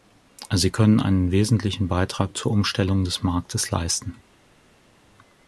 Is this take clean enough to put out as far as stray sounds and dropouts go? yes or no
yes